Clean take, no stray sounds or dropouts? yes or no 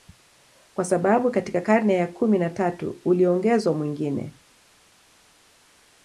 yes